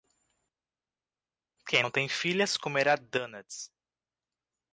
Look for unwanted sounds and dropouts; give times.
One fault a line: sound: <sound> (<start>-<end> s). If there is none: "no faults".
no faults